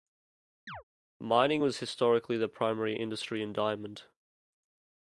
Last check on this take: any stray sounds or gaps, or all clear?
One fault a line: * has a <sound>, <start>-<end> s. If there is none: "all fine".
* has a chirp, 0.7-0.8 s